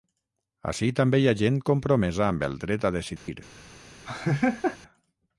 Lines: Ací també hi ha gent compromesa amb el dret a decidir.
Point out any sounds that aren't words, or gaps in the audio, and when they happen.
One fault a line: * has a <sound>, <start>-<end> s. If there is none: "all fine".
* has a dropout, 3.2-3.3 s
* has a laugh, 4.1-4.8 s